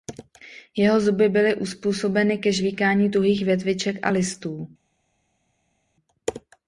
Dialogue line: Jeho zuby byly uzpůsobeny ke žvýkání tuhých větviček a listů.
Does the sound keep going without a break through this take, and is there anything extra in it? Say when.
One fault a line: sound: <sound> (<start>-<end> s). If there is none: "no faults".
no faults